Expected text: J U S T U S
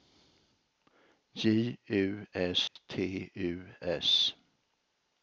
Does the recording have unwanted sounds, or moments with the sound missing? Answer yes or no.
yes